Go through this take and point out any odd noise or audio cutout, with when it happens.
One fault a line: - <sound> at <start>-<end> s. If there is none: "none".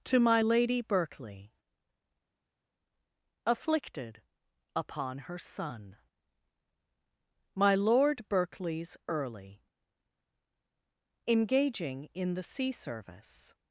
none